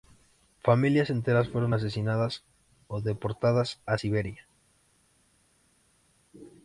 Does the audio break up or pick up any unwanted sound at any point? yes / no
no